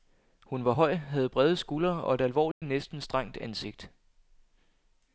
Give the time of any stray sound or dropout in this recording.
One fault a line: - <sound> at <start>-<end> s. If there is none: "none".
- dropout at 2.5-2.6 s